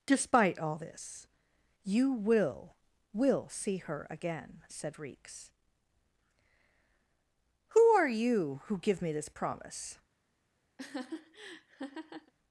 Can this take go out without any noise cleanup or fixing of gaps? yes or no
no